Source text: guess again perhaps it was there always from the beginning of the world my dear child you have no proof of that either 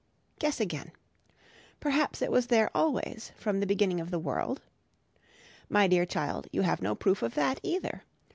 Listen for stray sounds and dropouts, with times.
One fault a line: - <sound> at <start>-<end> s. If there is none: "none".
none